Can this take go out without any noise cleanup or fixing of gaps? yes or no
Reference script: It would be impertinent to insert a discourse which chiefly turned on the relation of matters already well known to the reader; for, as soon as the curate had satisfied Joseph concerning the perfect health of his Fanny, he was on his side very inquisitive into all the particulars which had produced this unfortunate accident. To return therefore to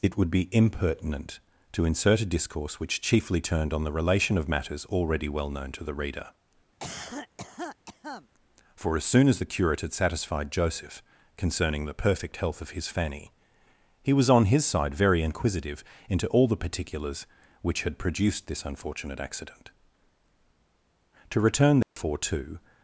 no